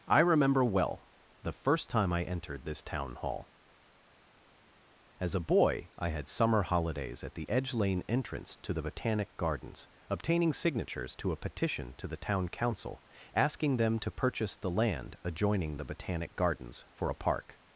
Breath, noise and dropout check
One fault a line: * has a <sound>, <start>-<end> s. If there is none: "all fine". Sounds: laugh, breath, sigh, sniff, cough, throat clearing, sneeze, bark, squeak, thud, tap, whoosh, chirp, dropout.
all fine